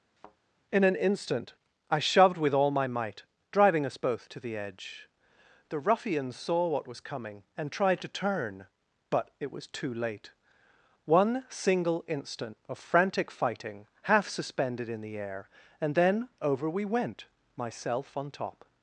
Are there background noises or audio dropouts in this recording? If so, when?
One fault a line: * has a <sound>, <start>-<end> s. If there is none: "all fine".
* has a thud, 0.2-0.4 s